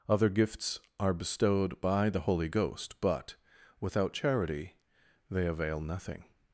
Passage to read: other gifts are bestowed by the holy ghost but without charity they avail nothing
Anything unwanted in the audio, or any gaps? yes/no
no